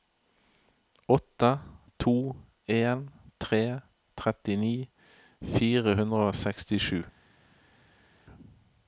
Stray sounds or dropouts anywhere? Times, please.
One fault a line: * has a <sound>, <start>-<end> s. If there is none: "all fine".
all fine